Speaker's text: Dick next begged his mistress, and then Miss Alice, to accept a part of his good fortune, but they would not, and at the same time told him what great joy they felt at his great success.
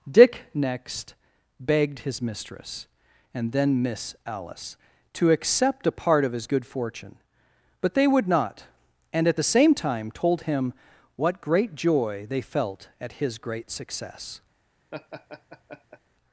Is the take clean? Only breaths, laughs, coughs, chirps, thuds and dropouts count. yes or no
no